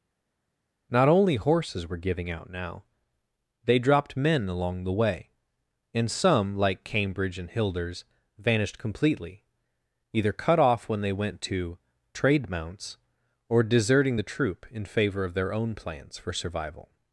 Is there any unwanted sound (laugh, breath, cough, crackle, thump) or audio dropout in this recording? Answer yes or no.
no